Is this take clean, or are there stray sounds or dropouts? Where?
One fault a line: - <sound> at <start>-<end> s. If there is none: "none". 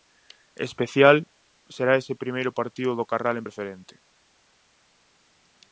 none